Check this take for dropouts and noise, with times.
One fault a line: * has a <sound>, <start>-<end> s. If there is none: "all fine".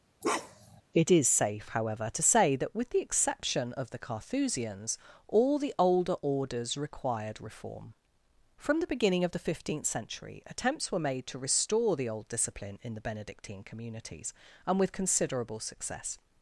* has a bark, 0.2-0.8 s